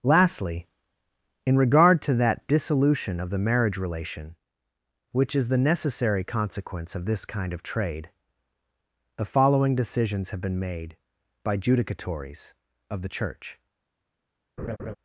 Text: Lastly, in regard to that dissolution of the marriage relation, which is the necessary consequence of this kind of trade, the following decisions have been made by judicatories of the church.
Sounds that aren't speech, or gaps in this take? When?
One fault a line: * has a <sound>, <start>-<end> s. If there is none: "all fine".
* has a laugh, 14.6-15.0 s